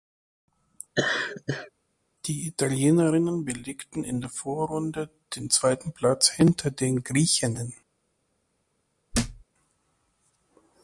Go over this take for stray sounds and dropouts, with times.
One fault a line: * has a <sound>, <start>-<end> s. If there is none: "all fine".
* has a laugh, 0.9-1.7 s
* has a thud, 9.1-9.4 s